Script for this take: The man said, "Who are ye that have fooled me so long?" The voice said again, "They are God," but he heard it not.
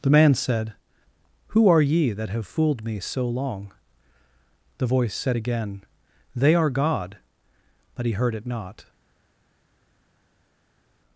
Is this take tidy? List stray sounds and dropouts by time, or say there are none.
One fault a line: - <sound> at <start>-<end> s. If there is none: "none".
none